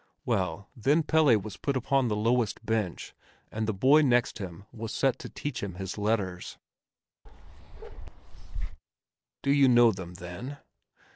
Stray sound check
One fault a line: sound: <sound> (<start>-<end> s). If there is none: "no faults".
sound: bark (7.3-8.8 s)